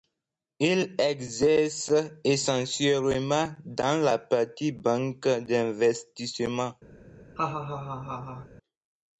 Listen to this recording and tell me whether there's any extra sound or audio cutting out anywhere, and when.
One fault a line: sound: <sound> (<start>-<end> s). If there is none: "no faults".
sound: laugh (7.4-8.5 s)